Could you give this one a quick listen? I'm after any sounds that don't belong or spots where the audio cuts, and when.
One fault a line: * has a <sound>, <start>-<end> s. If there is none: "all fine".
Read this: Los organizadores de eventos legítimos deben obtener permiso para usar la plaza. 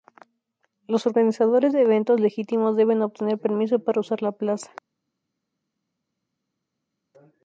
all fine